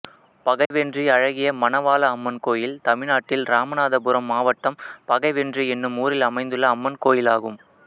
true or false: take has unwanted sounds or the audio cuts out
true